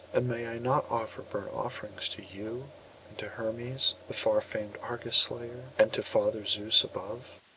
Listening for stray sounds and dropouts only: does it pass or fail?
pass